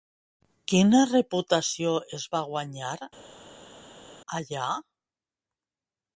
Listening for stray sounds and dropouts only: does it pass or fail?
pass